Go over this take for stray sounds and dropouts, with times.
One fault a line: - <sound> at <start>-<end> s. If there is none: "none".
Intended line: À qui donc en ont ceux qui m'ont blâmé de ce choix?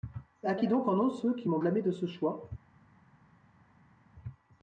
none